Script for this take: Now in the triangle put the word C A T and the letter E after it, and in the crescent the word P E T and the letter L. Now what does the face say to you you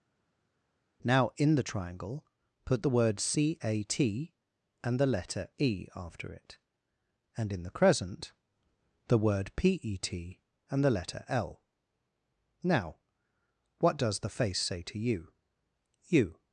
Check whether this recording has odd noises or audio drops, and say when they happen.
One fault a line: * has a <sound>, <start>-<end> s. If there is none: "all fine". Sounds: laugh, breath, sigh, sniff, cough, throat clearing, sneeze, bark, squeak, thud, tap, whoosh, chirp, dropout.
all fine